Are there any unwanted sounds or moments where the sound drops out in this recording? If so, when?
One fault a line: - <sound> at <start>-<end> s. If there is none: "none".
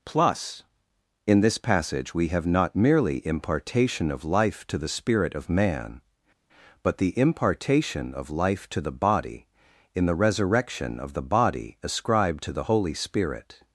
none